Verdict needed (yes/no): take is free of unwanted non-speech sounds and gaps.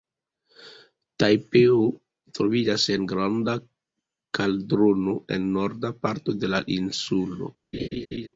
no